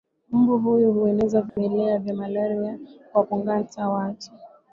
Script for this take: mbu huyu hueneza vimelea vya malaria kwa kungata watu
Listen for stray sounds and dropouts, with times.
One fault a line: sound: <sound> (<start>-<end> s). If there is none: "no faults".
sound: dropout (1.5-1.6 s)